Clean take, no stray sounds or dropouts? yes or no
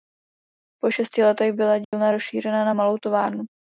no